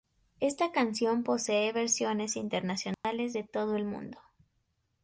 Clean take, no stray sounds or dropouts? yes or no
no